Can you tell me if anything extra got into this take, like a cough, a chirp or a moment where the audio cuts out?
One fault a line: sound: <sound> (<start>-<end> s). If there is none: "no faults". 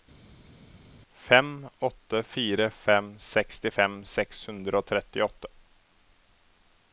no faults